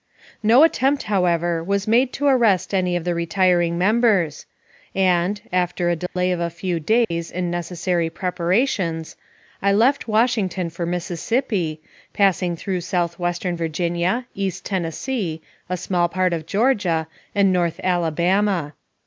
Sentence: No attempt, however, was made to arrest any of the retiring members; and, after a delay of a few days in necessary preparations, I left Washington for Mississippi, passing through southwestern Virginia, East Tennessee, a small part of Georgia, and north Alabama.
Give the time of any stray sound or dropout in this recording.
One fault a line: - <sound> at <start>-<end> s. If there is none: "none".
- dropout at 6.1-6.2 s
- dropout at 7.0-7.1 s